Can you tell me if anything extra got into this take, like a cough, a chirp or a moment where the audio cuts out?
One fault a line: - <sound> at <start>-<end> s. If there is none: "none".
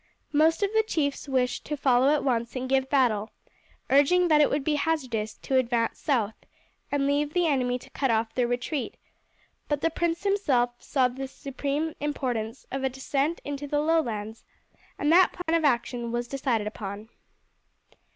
- dropout at 15.4-15.5 s